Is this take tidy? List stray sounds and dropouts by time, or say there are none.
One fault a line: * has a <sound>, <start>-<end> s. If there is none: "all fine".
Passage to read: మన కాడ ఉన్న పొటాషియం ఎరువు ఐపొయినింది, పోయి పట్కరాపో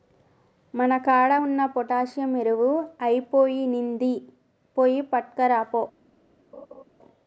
* has a laugh, 6.5-6.8 s